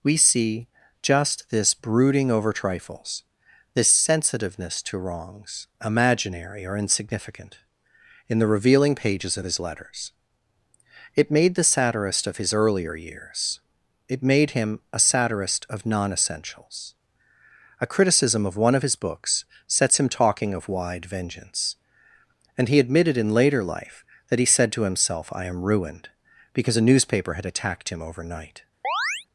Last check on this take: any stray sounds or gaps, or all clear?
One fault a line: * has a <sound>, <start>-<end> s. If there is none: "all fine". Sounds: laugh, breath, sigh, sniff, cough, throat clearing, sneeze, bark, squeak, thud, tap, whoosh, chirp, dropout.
* has a chirp, 28.8-29.3 s